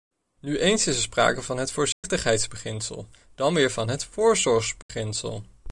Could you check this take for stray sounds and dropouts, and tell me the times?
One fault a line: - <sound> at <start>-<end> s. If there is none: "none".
- dropout at 1.9-2.0 s
- dropout at 4.8-4.9 s